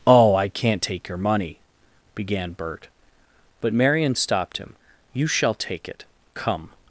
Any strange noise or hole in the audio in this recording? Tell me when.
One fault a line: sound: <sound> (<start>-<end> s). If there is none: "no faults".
no faults